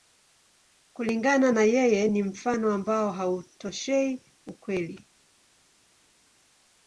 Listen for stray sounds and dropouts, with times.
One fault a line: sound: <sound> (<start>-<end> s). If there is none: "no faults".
no faults